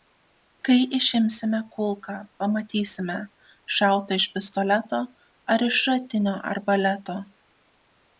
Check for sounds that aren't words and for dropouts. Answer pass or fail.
pass